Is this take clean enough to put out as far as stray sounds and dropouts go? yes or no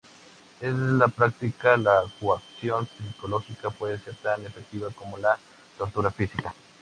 yes